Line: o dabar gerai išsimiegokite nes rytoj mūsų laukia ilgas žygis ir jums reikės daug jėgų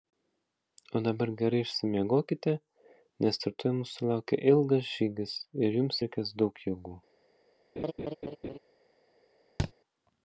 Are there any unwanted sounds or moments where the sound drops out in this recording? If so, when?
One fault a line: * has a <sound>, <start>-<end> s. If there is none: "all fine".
* has a laugh, 7.8-8.6 s
* has a thud, 9.6-9.7 s